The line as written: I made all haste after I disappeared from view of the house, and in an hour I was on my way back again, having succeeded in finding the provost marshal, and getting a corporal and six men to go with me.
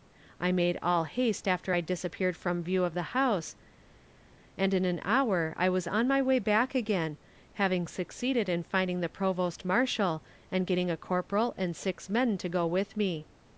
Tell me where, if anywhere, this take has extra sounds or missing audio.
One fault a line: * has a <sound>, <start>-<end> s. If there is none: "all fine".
all fine